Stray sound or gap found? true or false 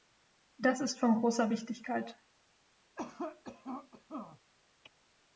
true